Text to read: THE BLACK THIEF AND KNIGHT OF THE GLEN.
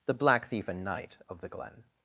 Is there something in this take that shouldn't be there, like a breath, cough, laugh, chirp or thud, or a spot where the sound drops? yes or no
no